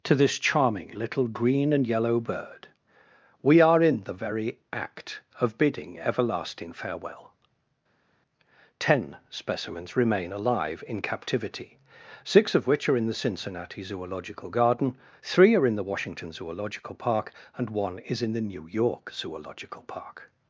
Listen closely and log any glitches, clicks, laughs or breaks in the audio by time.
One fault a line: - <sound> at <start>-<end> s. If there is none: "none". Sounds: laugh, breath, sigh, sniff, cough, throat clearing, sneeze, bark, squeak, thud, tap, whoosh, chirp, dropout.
none